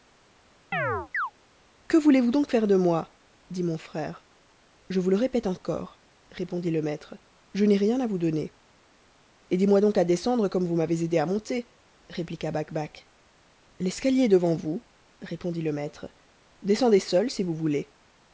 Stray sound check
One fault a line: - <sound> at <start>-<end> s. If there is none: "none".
- chirp at 0.7-1.3 s